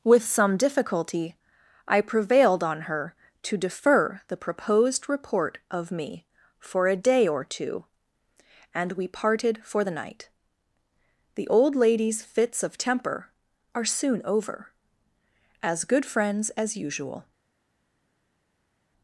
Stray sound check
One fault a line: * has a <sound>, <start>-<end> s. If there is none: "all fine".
all fine